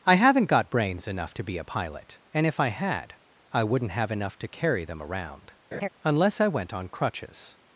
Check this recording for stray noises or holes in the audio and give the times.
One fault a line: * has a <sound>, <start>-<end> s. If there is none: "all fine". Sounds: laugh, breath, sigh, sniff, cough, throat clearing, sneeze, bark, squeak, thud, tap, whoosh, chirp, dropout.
* has a laugh, 5.7-5.9 s